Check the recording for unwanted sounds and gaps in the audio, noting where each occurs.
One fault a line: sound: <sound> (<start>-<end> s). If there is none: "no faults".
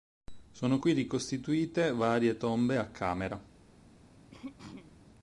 sound: throat clearing (4.3-5.0 s)